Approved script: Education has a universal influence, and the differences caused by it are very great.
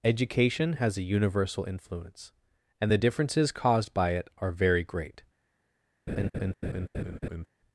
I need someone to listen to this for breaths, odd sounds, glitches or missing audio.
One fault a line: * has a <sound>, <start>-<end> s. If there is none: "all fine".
* has a laugh, 6.1-7.5 s